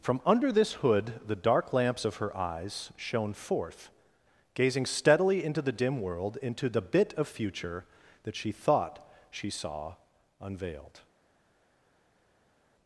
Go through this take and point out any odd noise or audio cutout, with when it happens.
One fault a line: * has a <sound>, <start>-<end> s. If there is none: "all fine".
all fine